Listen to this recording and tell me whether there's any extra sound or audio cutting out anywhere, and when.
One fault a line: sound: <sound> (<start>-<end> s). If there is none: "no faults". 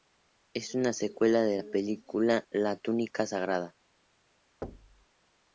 sound: thud (4.6-5.1 s)